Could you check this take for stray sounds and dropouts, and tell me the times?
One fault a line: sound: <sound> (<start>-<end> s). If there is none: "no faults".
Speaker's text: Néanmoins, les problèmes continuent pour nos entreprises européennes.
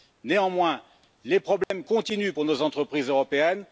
sound: dropout (1.6-1.7 s)